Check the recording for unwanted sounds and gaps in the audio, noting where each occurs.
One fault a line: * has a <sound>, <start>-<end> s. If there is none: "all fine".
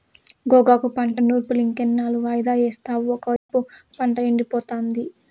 * has a dropout, 3.4-3.5 s